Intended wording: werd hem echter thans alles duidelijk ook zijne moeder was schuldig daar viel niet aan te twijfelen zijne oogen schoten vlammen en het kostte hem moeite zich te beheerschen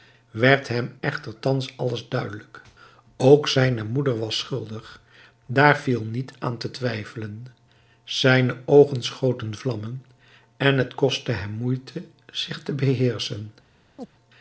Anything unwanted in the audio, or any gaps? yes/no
yes